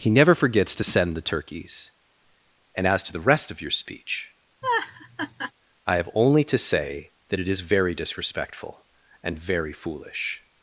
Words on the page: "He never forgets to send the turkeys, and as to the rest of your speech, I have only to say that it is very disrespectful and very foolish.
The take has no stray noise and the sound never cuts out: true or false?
false